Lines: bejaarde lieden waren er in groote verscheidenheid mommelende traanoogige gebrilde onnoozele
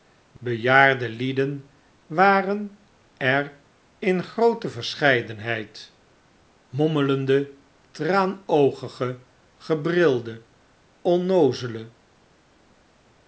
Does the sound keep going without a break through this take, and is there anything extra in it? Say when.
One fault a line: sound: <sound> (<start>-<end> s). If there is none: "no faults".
no faults